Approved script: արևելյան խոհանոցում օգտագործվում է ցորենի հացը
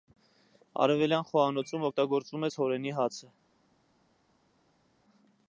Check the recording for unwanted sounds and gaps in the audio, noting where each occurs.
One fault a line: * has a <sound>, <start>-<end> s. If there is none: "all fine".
all fine